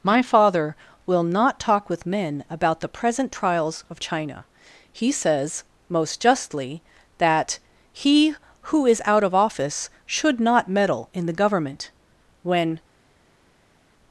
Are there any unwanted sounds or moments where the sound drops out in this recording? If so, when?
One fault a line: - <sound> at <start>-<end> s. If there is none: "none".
none